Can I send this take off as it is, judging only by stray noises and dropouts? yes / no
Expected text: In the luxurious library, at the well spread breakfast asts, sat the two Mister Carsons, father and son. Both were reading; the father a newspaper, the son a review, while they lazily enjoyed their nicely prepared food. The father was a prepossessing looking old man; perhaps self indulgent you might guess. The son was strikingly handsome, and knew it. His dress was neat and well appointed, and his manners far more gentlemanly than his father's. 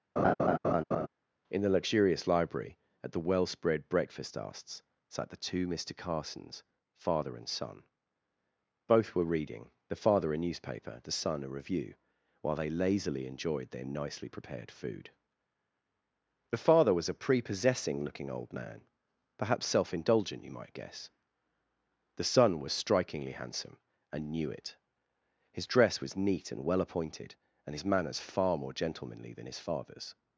no